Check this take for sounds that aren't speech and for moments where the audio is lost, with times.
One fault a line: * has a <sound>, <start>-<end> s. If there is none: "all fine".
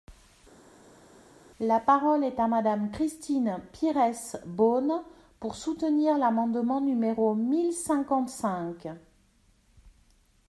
all fine